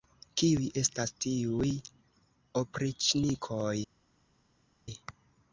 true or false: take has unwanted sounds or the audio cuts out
false